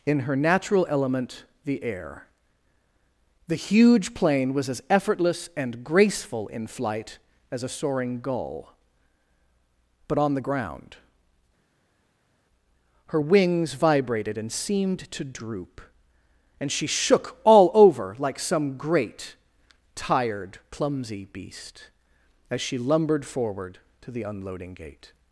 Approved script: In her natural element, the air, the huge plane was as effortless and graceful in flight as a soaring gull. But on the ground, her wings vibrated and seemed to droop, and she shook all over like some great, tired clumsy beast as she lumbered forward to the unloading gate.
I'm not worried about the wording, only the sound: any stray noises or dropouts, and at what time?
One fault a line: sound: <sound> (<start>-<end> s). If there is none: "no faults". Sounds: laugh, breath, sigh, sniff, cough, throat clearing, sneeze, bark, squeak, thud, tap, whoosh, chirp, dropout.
no faults